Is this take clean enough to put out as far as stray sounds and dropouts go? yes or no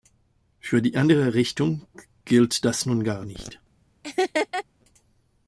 no